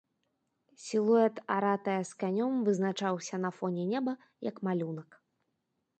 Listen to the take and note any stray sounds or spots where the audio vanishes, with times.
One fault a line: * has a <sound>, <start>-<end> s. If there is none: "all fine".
all fine